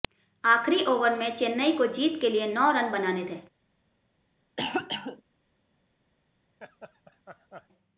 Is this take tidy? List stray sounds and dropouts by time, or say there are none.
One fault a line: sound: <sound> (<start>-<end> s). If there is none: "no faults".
sound: cough (4.6-5.2 s)
sound: laugh (6.6-7.7 s)